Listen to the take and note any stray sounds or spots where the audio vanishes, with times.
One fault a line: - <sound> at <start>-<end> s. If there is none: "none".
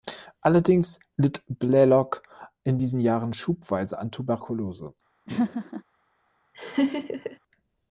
- laugh at 5.3-5.8 s
- laugh at 6.5-7.4 s